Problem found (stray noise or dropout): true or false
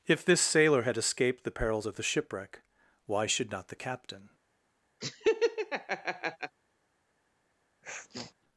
true